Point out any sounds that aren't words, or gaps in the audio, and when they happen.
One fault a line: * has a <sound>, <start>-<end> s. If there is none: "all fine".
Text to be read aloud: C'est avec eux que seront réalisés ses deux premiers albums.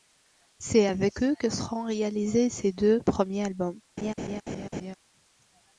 * has a laugh, 4.0-4.9 s